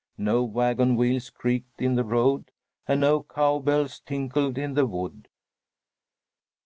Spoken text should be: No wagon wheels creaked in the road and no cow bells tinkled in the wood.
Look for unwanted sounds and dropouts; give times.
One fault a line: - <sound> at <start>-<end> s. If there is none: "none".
none